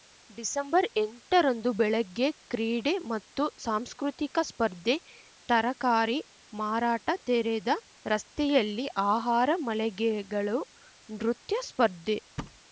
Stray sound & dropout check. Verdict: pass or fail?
fail